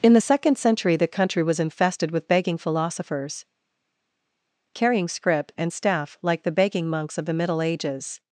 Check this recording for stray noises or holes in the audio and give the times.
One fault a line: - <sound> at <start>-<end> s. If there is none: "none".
none